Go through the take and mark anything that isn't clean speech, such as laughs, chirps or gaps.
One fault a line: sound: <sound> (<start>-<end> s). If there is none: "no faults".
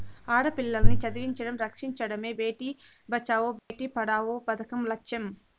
sound: dropout (3.6-3.7 s)